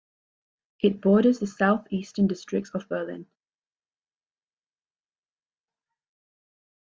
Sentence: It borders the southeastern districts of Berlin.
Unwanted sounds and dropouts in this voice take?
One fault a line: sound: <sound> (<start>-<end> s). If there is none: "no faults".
no faults